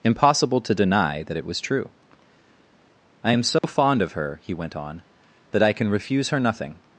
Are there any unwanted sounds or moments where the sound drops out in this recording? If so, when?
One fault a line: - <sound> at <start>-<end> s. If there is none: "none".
- dropout at 3.6-3.6 s